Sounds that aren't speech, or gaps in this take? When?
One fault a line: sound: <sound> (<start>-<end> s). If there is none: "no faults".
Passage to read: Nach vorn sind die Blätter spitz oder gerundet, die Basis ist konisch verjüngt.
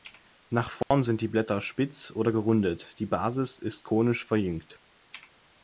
sound: dropout (0.8-0.9 s)